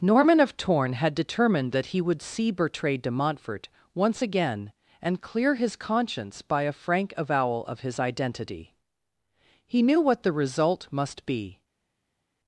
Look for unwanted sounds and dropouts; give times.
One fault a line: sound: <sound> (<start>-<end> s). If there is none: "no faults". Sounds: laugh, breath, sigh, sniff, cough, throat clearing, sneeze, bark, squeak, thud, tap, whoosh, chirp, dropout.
no faults